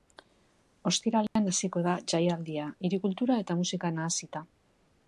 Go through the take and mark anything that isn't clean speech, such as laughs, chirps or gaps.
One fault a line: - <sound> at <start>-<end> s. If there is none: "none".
- dropout at 1.3-1.4 s